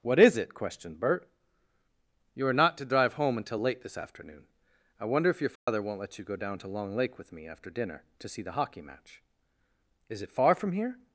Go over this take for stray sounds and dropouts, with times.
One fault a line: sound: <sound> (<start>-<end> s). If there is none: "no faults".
sound: dropout (5.6-5.7 s)